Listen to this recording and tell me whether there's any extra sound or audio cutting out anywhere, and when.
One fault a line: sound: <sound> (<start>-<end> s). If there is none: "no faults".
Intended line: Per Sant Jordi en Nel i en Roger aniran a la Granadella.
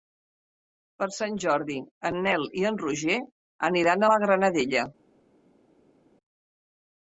no faults